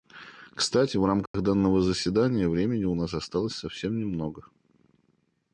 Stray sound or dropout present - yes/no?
yes